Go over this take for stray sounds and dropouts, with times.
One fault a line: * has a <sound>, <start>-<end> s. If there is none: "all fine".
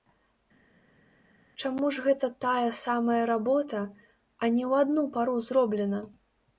all fine